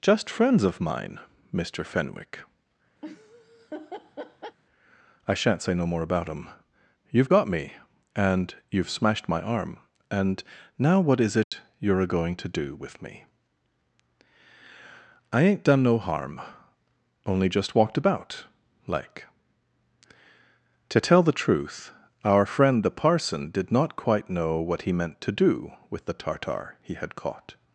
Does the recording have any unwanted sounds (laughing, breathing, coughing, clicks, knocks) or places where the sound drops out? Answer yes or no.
yes